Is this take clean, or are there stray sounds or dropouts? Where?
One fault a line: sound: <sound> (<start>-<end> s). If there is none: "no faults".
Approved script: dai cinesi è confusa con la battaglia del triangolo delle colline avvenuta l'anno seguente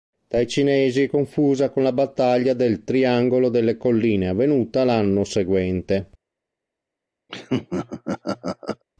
sound: laugh (7.3-8.8 s)